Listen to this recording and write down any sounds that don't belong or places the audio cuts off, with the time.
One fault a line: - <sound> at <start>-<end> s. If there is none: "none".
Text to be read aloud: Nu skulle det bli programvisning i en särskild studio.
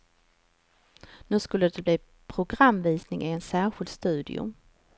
none